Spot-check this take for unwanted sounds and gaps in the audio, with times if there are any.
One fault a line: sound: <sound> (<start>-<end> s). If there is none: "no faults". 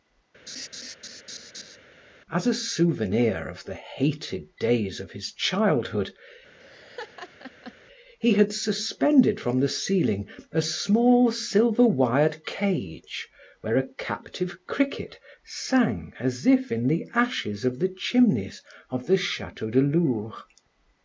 sound: laugh (0.5-1.8 s)
sound: laugh (6.6-7.7 s)